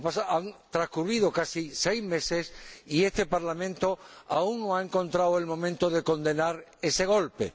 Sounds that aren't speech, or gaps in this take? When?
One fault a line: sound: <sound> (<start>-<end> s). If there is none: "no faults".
no faults